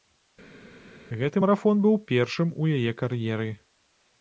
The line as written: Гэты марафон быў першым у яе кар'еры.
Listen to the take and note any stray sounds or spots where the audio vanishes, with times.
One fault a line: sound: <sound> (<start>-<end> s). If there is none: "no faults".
no faults